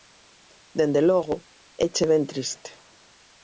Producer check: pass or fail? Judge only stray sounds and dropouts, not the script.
pass